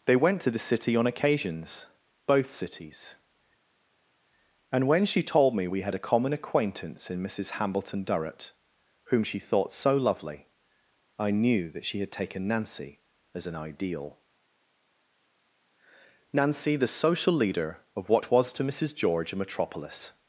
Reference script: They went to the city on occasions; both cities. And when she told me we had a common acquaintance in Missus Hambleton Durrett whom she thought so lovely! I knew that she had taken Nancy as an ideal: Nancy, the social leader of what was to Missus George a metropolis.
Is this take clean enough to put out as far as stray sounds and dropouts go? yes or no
yes